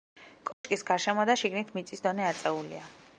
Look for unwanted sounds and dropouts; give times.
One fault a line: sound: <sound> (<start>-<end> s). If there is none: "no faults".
sound: dropout (0.5-0.6 s)